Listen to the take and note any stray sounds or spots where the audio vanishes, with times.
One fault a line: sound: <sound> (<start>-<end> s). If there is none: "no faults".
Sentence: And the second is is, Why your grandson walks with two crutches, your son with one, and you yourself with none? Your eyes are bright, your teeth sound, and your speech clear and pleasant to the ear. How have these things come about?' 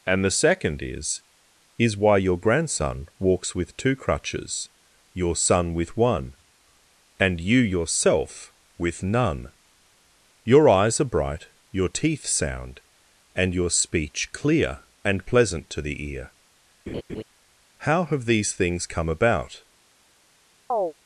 sound: laugh (16.9-17.2 s)
sound: chirp (20.7-20.9 s)